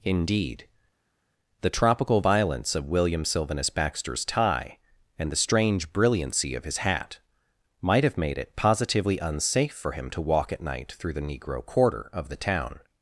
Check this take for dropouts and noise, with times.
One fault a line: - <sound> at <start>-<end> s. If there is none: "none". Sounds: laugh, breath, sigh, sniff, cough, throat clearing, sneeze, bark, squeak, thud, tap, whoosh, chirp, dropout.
none